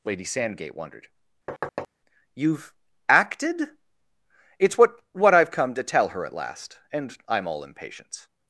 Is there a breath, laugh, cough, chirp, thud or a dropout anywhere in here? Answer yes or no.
yes